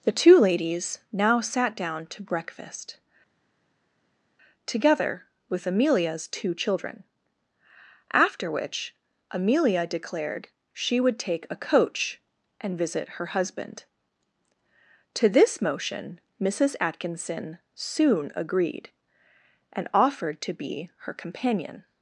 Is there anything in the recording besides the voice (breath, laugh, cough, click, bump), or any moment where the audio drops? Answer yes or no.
no